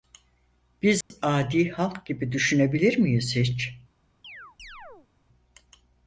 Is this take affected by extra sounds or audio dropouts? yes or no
yes